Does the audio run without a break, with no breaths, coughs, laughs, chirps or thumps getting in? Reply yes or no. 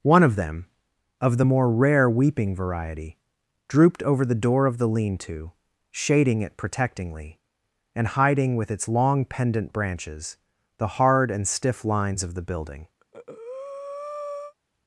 no